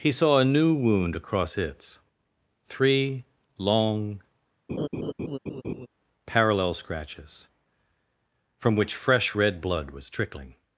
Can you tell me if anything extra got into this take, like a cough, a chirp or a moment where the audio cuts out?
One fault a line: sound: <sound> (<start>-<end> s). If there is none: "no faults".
sound: laugh (4.7-5.9 s)